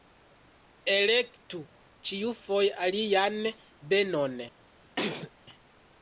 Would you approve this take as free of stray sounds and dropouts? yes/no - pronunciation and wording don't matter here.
no